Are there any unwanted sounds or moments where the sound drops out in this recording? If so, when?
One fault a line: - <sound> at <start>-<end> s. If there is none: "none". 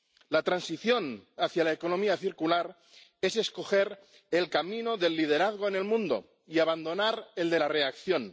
none